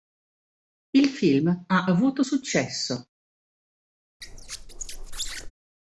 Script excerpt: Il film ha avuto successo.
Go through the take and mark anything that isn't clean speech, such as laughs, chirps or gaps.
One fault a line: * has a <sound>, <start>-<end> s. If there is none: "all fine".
* has a squeak, 4.2-5.5 s